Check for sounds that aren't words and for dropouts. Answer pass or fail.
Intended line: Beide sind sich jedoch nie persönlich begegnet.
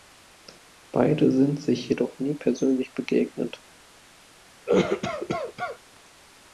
fail